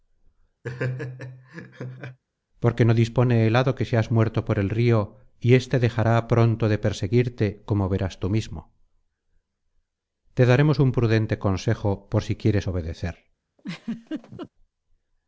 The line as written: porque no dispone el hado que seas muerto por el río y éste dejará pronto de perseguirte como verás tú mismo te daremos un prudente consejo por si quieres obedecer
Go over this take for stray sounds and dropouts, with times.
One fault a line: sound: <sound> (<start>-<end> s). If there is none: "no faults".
sound: laugh (0.6-2.2 s)
sound: laugh (13.6-14.5 s)